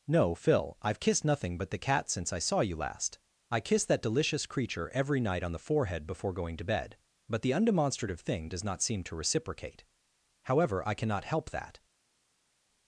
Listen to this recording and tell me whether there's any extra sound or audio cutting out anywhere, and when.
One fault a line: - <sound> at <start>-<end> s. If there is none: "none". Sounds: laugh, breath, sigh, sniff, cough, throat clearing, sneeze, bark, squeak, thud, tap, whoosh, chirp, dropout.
none